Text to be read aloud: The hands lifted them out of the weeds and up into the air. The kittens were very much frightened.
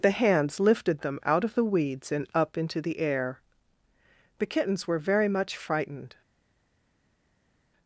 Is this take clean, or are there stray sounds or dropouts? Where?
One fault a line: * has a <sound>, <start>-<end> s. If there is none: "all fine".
all fine